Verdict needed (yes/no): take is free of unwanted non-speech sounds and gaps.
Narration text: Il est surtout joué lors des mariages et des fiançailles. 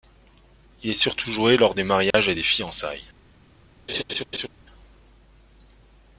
no